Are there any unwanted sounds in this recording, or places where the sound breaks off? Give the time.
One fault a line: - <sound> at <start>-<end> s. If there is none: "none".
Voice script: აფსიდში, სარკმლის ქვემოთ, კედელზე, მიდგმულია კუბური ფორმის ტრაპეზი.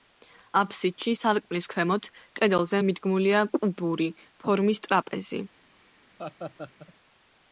- laugh at 6.2-6.9 s